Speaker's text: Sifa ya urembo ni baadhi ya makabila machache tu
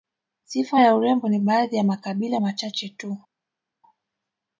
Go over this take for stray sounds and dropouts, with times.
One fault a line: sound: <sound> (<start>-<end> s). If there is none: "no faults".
no faults